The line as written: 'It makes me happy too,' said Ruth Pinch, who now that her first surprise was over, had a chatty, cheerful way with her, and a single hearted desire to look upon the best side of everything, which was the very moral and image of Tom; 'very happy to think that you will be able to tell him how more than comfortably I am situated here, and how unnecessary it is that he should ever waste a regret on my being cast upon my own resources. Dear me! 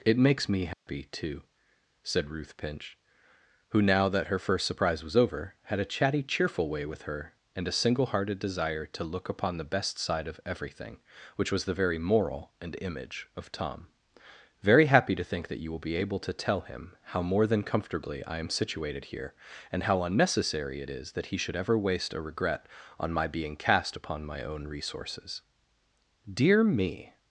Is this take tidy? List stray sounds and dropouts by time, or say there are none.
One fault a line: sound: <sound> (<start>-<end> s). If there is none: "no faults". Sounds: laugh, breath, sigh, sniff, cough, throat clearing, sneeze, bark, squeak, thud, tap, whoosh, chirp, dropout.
sound: dropout (0.7-0.9 s)